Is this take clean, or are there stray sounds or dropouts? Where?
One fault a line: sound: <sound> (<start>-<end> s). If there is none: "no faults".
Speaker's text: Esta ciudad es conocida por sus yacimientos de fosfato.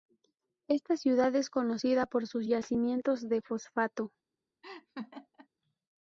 sound: laugh (4.6-5.5 s)